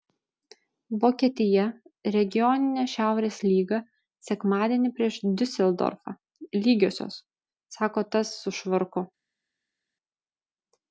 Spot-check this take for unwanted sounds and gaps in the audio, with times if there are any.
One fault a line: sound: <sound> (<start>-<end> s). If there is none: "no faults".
no faults